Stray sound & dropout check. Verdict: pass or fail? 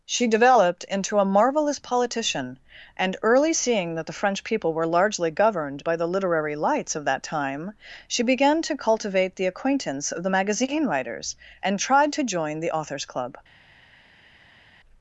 pass